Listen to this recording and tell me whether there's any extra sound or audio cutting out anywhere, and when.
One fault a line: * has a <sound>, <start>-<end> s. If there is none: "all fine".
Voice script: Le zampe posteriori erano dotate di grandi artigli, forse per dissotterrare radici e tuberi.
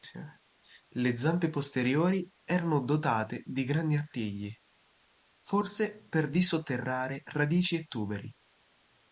all fine